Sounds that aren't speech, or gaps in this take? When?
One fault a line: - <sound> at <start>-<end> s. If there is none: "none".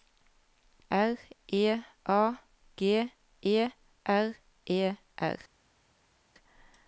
none